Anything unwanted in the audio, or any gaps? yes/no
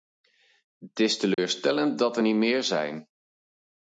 yes